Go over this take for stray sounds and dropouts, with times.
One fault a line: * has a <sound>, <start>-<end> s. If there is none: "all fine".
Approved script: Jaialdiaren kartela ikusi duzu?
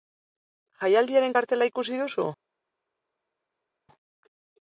all fine